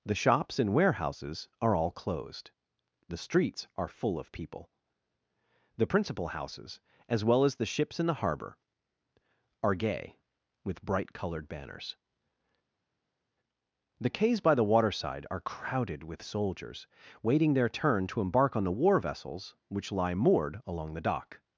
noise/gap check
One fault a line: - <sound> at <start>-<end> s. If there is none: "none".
none